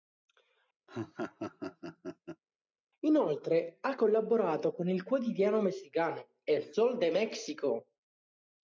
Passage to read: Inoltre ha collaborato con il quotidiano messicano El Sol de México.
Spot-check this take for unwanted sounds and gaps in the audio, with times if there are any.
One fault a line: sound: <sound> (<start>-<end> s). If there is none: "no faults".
sound: laugh (0.9-2.4 s)